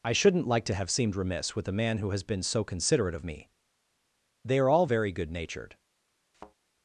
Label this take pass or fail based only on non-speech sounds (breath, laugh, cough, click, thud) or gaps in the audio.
fail